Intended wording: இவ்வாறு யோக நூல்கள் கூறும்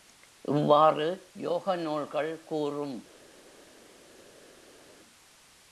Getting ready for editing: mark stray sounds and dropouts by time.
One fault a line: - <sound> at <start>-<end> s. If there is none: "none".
none